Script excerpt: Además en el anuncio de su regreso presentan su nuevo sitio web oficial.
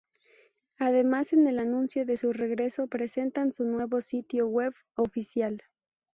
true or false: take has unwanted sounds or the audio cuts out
false